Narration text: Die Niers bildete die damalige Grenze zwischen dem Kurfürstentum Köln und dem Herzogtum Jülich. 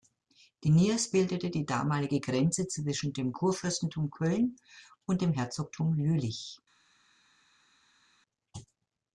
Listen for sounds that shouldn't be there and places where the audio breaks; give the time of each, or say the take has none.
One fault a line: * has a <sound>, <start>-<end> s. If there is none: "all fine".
all fine